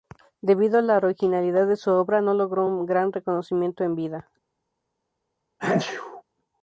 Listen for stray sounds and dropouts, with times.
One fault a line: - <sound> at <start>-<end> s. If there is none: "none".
- sneeze at 5.6-6.2 s